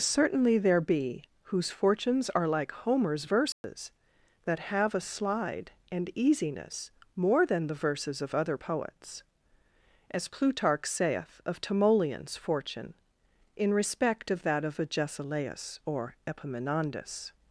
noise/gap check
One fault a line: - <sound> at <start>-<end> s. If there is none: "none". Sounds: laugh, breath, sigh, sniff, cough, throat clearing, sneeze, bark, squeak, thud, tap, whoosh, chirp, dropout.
- dropout at 3.5-3.6 s